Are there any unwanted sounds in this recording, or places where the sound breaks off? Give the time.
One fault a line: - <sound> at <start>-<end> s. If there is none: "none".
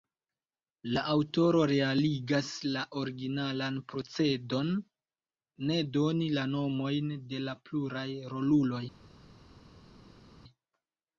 none